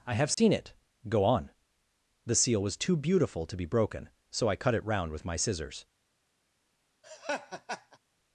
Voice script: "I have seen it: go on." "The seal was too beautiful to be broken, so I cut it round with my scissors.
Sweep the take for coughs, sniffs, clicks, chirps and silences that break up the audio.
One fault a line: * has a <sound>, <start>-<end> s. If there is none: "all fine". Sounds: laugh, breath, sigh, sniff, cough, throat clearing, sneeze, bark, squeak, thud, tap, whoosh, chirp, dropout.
* has a dropout, 0.3-0.4 s
* has a laugh, 7.0-8.0 s